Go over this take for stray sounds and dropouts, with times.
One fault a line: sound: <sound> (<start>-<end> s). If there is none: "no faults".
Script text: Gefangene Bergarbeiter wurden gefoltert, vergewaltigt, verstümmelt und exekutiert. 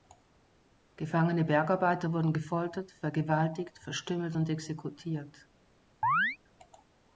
sound: chirp (6.0-6.4 s)